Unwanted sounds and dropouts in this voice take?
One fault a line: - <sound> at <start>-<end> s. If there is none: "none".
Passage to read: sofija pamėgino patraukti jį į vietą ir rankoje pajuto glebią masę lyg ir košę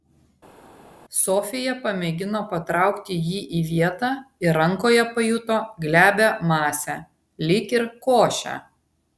none